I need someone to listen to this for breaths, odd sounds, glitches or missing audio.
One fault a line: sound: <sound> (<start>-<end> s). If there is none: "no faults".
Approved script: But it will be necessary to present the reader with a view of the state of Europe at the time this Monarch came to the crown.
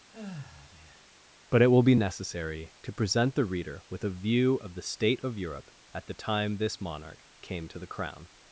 sound: sigh (0.1-1.1 s)